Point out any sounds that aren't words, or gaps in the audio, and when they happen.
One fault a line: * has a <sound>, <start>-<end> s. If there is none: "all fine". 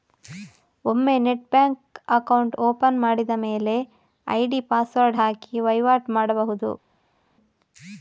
all fine